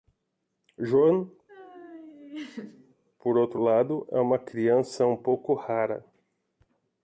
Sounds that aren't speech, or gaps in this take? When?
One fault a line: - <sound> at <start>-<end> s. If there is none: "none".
- laugh at 1.5-3.0 s